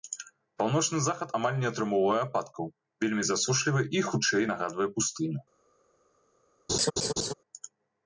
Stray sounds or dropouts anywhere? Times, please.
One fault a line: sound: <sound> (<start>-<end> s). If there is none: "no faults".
sound: laugh (6.7-7.3 s)